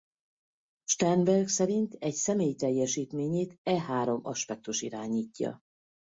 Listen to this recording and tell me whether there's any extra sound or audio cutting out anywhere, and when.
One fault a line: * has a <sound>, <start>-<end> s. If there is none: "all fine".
all fine